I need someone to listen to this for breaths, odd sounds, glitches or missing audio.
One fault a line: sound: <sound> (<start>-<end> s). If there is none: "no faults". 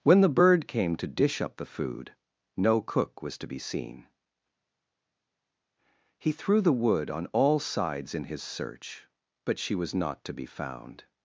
no faults